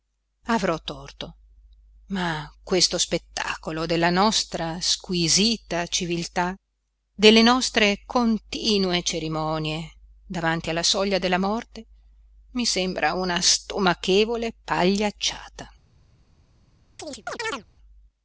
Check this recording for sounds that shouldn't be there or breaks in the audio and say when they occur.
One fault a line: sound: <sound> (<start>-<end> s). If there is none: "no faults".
sound: chirp (17.0-17.6 s)